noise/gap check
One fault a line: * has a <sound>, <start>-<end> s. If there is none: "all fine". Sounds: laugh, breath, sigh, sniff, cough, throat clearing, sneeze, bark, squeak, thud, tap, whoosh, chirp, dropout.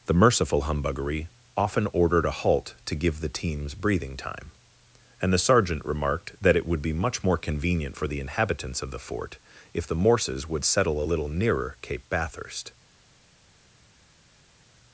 all fine